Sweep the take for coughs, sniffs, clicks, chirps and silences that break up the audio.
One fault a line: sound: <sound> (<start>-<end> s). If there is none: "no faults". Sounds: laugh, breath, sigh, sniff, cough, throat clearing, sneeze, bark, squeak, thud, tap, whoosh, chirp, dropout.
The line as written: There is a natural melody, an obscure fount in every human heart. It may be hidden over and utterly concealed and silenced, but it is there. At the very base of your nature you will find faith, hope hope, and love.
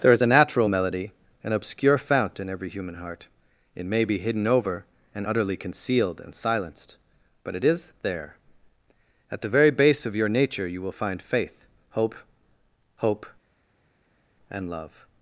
no faults